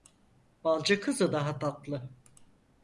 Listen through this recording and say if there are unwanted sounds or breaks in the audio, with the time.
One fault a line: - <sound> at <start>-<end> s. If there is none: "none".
none